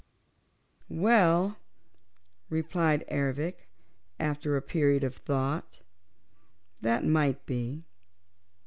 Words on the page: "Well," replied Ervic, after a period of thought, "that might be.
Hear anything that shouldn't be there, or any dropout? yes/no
no